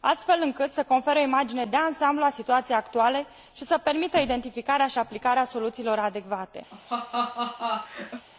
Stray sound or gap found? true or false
true